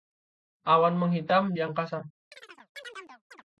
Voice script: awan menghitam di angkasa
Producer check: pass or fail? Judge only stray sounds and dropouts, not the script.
fail